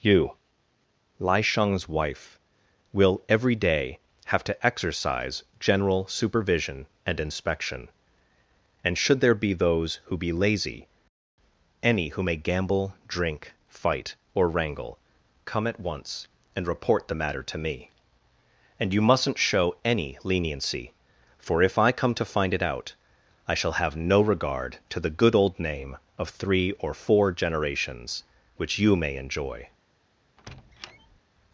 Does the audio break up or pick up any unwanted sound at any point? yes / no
yes